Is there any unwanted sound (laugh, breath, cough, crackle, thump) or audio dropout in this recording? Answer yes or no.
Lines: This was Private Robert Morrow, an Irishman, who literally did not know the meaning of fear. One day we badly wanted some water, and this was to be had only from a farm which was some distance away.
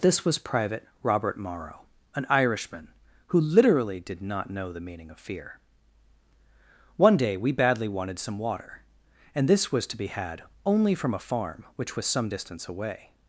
no